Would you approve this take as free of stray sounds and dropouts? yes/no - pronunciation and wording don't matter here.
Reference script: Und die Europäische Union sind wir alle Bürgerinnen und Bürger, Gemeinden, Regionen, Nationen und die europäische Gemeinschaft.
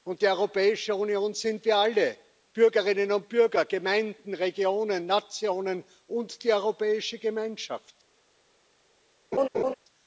no